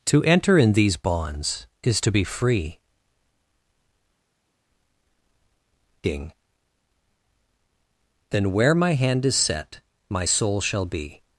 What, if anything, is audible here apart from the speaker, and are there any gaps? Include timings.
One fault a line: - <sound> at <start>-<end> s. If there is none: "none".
none